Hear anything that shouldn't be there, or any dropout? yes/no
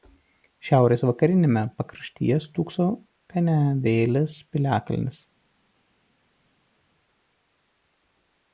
no